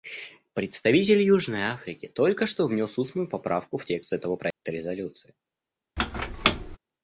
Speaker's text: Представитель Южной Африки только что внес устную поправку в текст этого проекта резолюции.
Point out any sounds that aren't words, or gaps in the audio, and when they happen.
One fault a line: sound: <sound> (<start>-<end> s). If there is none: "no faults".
sound: dropout (4.5-4.6 s)
sound: squeak (6.0-6.8 s)